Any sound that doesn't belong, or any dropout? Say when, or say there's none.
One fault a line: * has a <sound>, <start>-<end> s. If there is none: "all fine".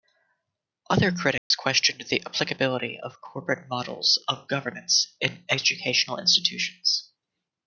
* has a dropout, 1.4-1.5 s